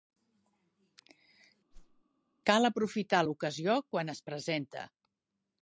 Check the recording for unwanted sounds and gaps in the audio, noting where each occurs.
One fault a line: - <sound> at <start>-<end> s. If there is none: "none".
- whoosh at 1.7-2.0 s